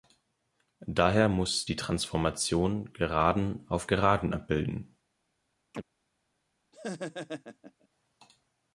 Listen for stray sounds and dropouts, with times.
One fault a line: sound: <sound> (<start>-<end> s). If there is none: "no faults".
sound: chirp (5.7-5.8 s)
sound: laugh (6.7-7.9 s)